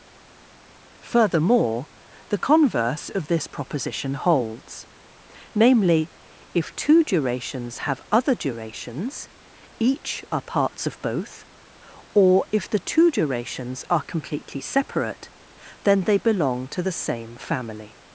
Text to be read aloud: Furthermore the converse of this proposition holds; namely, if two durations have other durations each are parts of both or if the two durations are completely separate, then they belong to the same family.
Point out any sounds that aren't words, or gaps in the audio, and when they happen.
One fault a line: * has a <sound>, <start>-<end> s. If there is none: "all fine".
all fine